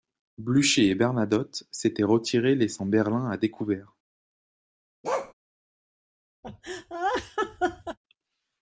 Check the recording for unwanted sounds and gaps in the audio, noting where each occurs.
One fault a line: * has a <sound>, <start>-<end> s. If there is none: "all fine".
* has a bark, 5.0-5.3 s
* has a laugh, 6.4-8.0 s